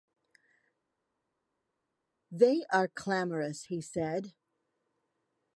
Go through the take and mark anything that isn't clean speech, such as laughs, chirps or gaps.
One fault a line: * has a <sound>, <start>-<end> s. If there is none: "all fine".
all fine